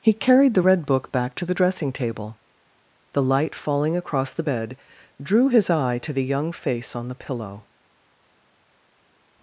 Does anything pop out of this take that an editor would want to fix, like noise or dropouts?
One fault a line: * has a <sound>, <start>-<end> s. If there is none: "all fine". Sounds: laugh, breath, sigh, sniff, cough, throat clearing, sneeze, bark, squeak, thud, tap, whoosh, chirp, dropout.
all fine